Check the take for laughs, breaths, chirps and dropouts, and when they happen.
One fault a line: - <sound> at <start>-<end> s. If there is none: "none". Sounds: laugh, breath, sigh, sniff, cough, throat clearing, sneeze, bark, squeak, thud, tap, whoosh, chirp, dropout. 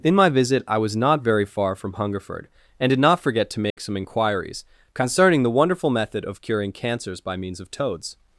- dropout at 3.7-3.8 s